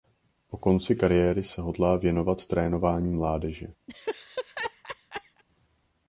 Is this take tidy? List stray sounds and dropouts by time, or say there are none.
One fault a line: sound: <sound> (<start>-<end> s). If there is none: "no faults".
sound: laugh (3.9-5.4 s)